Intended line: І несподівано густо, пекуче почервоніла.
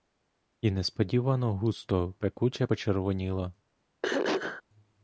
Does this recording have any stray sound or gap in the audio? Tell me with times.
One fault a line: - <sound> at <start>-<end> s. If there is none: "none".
- throat clearing at 4.0-4.6 s